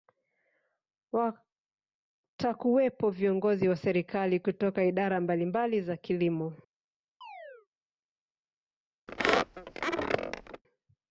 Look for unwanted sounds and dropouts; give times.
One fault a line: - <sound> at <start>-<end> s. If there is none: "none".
- chirp at 7.2-7.7 s
- squeak at 9.1-10.6 s